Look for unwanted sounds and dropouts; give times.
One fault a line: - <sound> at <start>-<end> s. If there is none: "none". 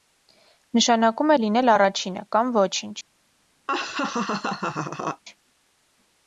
- laugh at 3.7-5.2 s